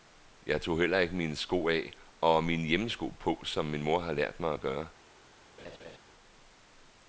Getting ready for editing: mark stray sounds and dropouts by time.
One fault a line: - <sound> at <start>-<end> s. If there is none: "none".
- laugh at 5.6-6.0 s